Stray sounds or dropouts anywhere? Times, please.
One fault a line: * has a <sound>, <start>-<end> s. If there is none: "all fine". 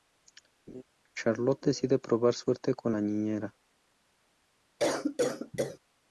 * has a laugh, 0.7-0.8 s
* has a cough, 4.8-5.8 s